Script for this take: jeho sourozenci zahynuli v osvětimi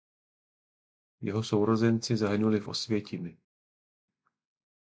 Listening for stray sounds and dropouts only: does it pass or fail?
pass